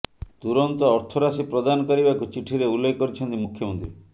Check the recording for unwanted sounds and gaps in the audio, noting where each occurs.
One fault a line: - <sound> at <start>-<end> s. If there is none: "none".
none